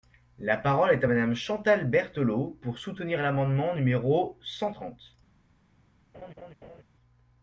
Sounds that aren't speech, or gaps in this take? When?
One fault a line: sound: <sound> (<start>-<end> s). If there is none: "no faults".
sound: laugh (6.1-6.8 s)